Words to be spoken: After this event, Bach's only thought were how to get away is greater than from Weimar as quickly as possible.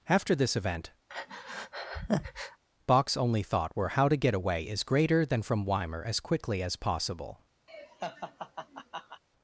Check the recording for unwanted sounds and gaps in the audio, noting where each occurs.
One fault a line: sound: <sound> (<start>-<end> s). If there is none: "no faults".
sound: breath (1.1-2.6 s)
sound: laugh (7.7-9.2 s)